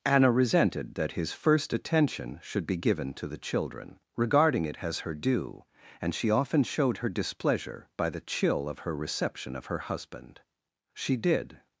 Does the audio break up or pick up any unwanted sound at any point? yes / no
no